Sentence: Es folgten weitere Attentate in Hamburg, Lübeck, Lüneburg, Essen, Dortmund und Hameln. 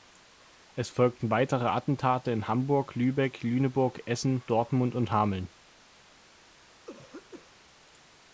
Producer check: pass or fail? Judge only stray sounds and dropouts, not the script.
fail